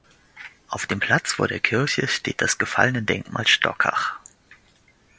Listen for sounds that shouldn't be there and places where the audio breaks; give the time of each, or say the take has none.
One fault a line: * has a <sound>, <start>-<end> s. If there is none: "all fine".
all fine